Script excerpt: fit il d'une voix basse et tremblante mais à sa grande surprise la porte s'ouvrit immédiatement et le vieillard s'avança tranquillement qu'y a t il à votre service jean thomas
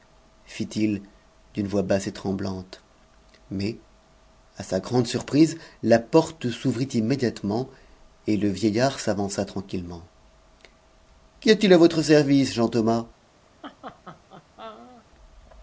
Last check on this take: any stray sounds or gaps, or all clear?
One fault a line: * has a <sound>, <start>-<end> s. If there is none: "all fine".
* has a laugh, 13.6-15.1 s